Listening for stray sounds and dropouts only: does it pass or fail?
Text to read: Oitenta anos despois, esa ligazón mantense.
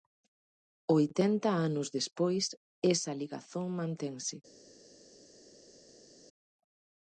pass